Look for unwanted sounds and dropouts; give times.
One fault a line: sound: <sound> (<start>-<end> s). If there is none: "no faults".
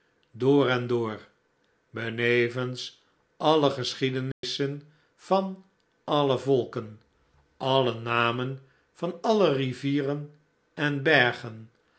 sound: dropout (4.3-4.4 s)